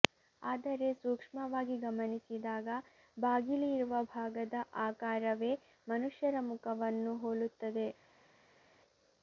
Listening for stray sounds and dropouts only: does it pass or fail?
pass